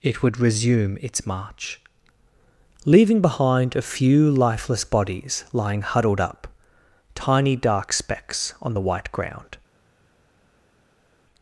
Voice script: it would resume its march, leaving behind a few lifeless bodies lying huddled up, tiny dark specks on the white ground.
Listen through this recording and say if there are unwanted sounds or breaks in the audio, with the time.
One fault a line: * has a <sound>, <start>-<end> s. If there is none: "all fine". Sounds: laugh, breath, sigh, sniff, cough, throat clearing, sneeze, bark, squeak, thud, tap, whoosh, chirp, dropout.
all fine